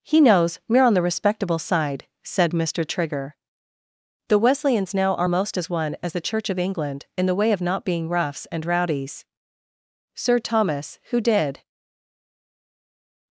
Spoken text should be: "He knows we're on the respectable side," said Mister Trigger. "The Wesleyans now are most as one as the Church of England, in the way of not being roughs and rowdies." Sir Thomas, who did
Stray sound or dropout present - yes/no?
no